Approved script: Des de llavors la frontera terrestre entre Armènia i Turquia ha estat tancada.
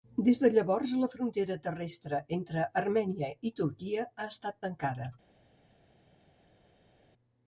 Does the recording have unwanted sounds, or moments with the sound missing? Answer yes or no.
no